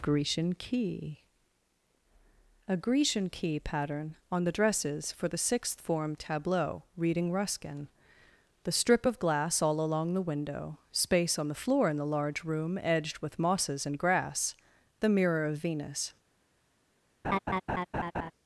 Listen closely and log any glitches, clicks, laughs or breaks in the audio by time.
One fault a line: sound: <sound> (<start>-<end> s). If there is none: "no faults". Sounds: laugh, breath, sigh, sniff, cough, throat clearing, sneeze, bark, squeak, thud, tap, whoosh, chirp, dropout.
sound: laugh (17.2-18.3 s)